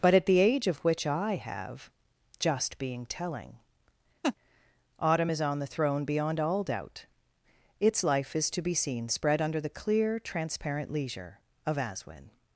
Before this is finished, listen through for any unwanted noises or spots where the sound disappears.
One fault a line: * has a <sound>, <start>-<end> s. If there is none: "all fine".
* has a laugh, 4.2-4.4 s